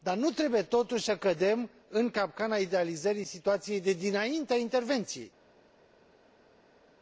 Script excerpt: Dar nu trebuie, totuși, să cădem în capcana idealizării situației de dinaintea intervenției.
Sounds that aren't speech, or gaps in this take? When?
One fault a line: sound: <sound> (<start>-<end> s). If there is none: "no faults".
no faults